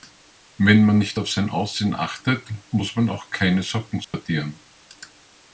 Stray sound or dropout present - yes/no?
yes